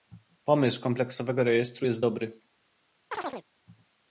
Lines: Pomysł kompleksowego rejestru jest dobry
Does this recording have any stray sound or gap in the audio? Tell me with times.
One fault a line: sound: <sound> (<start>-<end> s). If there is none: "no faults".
sound: chirp (3.1-3.4 s)